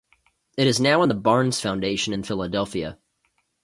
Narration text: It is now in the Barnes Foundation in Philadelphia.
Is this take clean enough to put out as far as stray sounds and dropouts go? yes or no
yes